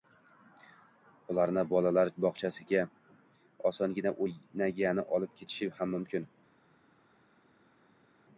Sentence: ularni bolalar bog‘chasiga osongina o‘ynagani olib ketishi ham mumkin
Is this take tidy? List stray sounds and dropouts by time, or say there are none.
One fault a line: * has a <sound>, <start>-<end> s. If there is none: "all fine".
all fine